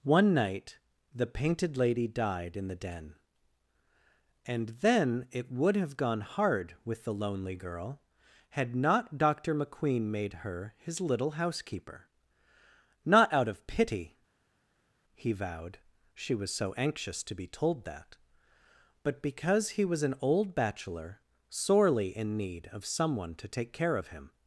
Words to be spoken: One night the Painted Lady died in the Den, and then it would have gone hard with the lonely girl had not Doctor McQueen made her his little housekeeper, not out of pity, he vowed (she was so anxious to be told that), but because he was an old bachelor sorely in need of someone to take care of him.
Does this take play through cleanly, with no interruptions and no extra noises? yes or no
yes